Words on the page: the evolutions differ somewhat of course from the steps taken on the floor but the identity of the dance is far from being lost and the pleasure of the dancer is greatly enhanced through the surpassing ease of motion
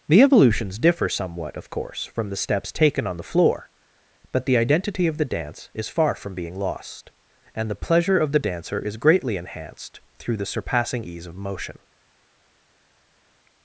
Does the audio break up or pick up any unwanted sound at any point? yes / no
no